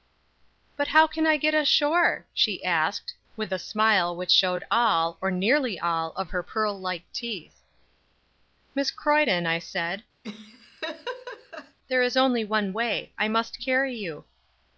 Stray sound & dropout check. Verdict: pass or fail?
fail